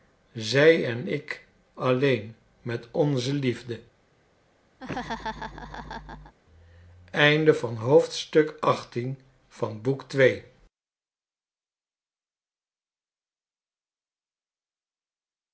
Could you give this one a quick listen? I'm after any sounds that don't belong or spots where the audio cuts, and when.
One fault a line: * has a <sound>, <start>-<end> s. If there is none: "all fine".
* has a laugh, 4.8-6.3 s